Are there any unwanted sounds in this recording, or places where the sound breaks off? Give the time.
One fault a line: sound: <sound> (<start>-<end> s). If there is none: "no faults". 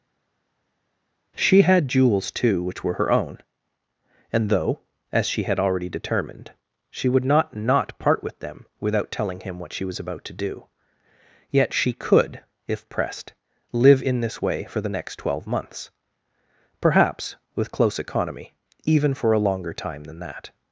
no faults